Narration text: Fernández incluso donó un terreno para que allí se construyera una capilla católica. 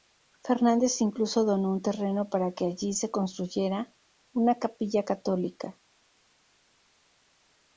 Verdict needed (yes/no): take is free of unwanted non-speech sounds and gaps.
yes